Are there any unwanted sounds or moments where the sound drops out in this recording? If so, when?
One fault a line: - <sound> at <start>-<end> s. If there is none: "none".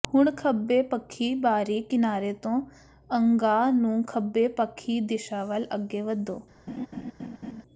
- laugh at 6.7-7.6 s